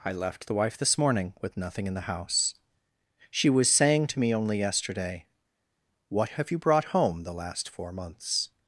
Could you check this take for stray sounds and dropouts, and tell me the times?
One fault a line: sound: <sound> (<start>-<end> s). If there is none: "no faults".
no faults